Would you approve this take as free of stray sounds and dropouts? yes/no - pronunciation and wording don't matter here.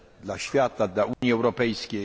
no